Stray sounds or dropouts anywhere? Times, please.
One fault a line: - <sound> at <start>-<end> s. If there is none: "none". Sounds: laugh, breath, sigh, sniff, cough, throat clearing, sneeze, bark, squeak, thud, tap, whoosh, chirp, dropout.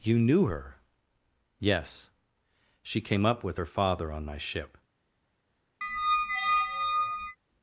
- squeak at 5.8-7.4 s